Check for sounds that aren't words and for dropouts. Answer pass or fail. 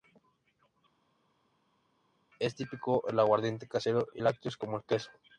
pass